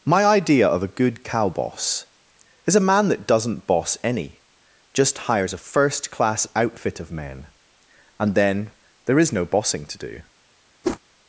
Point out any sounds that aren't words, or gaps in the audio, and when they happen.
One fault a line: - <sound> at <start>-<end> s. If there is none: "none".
- whoosh at 10.8-11.0 s